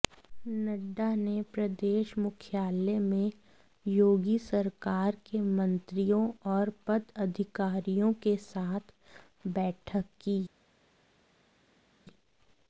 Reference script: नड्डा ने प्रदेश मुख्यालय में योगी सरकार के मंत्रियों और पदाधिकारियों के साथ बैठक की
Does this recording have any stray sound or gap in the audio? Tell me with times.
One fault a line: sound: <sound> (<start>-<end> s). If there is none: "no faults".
no faults